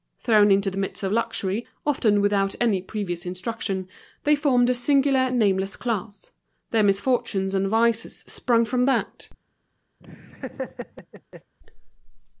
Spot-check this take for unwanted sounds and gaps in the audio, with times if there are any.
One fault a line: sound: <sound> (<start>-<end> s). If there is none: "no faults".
sound: laugh (10.0-11.5 s)